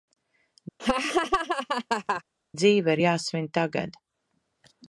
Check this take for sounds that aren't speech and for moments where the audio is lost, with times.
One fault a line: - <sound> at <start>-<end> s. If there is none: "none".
- laugh at 0.8-2.2 s